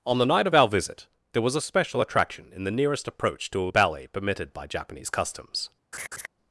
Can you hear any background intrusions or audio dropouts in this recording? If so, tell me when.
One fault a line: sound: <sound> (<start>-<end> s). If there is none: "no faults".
sound: laugh (5.9-6.3 s)